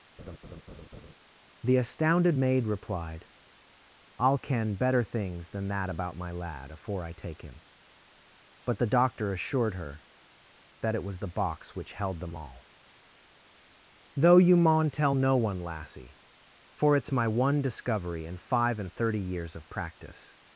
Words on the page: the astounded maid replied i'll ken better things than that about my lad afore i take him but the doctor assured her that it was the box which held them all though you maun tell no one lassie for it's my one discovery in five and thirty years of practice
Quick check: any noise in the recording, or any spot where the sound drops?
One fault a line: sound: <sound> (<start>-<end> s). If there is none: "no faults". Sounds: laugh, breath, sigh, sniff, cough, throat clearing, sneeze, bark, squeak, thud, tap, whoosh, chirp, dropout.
sound: laugh (0.2-1.1 s)